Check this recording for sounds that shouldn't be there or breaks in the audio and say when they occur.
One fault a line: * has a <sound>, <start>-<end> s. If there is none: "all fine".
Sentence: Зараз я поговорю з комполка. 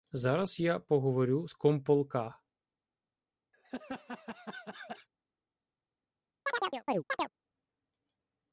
* has a laugh, 3.5-5.1 s
* has a chirp, 6.5-7.3 s